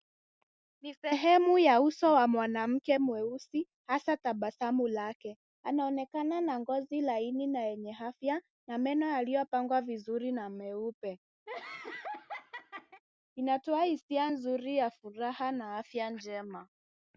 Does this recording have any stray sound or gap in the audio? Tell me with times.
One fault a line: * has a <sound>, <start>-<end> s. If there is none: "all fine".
* has a laugh, 11.5-13.0 s